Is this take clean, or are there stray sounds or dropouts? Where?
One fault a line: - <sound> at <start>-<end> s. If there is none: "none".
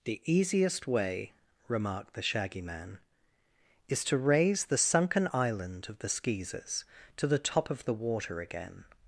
none